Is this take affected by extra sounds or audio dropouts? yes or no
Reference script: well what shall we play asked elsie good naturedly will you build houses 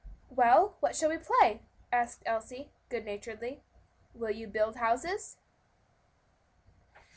no